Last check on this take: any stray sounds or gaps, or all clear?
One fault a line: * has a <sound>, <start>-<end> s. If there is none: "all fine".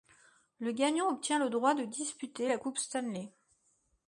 all fine